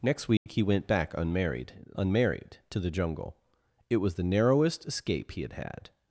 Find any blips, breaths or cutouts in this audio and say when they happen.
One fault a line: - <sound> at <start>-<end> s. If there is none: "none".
- dropout at 0.4-0.5 s